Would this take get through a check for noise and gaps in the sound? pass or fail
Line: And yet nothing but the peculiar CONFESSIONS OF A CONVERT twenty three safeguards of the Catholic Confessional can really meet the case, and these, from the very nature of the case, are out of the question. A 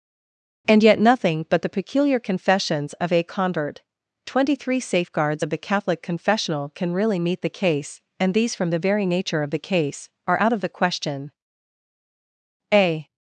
pass